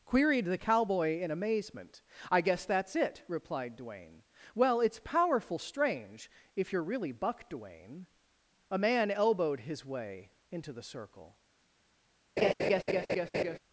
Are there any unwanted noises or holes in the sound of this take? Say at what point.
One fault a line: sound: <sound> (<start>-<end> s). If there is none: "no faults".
sound: laugh (12.4-13.6 s)